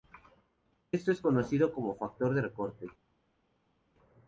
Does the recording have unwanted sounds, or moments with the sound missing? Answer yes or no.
no